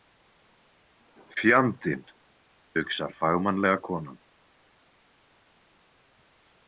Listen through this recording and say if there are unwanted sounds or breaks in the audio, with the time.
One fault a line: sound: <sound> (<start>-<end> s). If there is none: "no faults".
no faults